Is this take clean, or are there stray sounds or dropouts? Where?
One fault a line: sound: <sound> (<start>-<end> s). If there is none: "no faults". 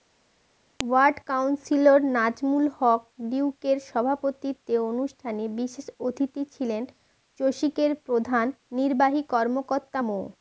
no faults